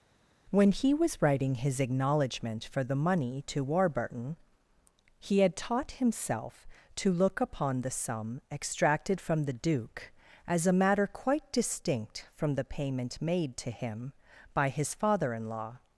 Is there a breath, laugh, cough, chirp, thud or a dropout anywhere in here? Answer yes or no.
no